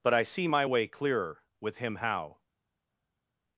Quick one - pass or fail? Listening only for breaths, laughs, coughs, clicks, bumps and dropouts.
pass